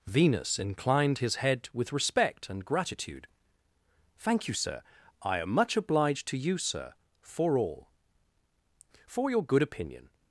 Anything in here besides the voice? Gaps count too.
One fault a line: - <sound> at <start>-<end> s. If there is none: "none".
none